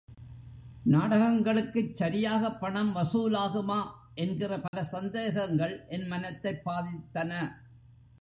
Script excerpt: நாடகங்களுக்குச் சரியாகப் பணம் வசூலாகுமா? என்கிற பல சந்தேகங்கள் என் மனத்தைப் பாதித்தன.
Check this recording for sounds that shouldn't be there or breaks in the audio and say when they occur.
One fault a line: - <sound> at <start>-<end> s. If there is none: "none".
- dropout at 4.7-4.7 s